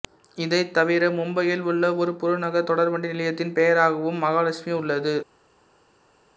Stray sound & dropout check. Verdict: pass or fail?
pass